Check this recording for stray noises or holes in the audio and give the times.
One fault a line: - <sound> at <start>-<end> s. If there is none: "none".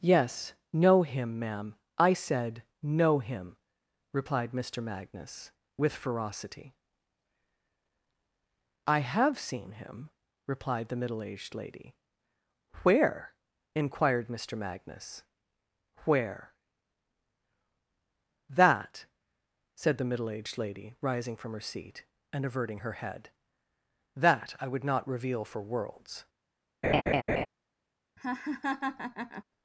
- laugh at 26.8-27.5 s
- laugh at 28.2-29.4 s